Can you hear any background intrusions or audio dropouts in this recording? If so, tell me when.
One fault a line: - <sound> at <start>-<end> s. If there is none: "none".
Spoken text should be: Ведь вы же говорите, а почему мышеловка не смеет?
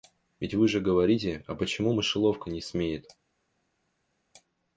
none